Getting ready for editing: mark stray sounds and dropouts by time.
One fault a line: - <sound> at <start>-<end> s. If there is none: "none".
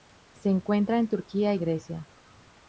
none